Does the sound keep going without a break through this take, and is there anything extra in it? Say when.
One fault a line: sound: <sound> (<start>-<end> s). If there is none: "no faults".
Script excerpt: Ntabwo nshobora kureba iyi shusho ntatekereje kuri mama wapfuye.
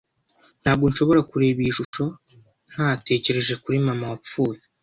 sound: dropout (1.8-1.9 s)